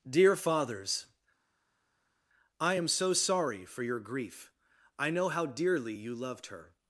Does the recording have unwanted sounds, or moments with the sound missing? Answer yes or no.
no